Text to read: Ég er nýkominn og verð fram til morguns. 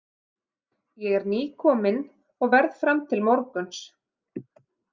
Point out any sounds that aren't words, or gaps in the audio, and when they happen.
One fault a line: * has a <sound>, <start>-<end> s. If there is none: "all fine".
all fine